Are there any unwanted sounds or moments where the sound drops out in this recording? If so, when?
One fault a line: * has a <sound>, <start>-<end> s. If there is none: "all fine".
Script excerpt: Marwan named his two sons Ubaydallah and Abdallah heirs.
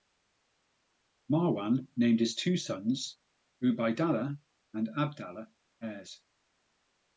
all fine